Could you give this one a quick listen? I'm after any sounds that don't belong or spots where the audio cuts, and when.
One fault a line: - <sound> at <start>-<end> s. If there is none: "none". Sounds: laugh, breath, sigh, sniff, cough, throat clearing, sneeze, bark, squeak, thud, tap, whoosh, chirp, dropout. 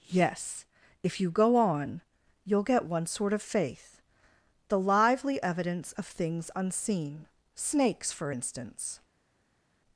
none